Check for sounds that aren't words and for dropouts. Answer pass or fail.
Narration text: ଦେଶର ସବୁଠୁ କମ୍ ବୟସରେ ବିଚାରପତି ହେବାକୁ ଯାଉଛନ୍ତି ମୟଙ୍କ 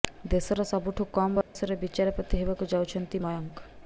fail